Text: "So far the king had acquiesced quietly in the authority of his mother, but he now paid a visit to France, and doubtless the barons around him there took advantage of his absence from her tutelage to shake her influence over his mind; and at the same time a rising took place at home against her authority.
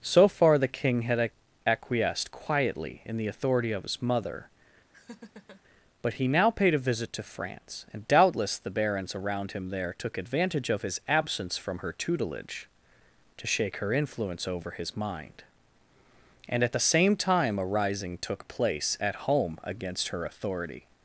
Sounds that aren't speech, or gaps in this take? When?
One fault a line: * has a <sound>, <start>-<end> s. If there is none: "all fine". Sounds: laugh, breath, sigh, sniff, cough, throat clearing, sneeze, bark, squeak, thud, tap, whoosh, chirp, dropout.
* has a laugh, 4.9-5.6 s